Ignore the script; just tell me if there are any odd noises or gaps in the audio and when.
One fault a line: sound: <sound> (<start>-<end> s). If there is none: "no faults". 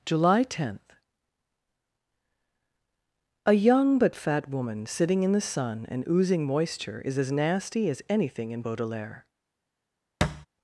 sound: thud (10.2-10.5 s)